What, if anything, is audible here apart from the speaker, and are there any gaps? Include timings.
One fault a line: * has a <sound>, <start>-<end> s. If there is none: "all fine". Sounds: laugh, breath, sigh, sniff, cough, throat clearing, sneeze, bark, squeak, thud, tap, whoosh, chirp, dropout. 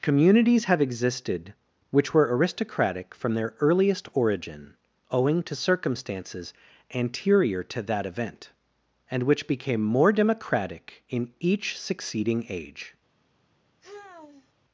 * has a sigh, 13.8-14.5 s